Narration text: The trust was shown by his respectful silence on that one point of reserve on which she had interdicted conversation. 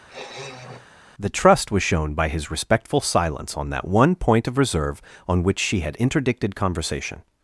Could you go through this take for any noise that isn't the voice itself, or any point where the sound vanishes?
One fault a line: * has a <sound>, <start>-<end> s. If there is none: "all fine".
* has a sniff, 0.1-0.9 s